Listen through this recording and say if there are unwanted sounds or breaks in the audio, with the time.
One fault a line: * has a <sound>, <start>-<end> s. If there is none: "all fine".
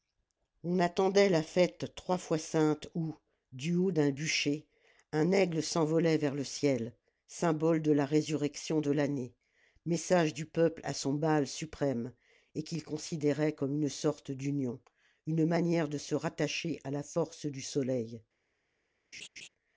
* has a laugh, 19.1-19.5 s